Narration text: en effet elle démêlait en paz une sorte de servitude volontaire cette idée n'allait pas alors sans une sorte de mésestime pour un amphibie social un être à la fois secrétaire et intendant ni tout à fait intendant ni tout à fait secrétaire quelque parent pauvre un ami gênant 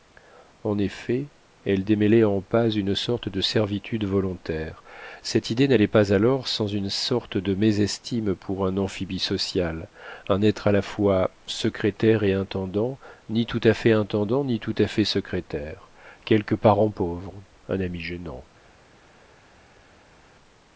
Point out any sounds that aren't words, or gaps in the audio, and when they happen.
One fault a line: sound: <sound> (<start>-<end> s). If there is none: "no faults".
no faults